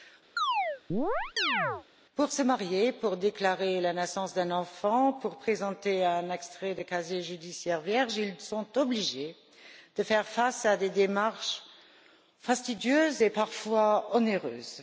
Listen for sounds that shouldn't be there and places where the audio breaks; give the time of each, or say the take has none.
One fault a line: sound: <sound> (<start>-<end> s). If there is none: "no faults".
sound: chirp (0.4-1.9 s)